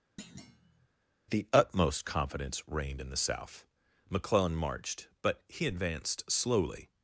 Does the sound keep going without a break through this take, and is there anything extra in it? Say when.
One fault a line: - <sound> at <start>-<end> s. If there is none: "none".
- thud at 0.2-0.9 s